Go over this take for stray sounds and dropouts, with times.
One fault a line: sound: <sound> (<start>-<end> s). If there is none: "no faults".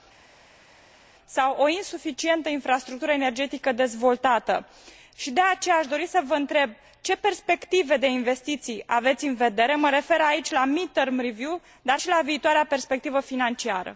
no faults